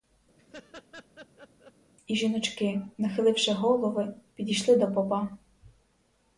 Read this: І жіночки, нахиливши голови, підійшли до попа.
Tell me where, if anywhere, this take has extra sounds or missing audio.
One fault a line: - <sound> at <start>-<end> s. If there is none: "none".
- laugh at 0.4-1.7 s